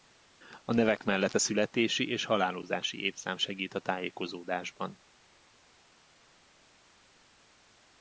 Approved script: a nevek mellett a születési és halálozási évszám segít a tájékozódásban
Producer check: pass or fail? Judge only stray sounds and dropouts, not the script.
pass